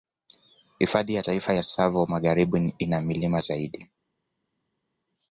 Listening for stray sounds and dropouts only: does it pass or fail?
pass